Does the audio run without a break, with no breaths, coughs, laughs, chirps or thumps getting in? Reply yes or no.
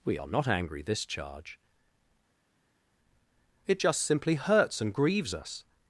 yes